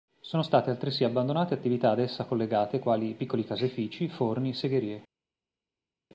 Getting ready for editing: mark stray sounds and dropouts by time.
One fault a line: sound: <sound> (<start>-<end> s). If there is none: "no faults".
no faults